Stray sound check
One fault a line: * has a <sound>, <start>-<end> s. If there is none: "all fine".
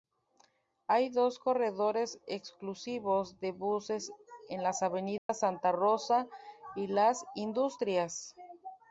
* has a dropout, 5.2-5.3 s